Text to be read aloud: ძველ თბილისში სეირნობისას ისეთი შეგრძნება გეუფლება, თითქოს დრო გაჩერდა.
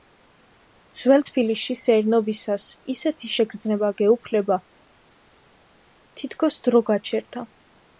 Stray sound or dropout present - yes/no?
no